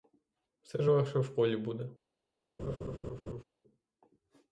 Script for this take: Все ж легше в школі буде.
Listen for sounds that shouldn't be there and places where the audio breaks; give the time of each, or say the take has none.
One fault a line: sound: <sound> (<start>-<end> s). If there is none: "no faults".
sound: laugh (2.6-3.4 s)